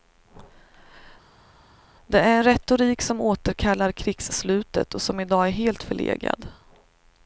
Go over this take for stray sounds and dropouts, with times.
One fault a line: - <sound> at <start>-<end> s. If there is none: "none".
none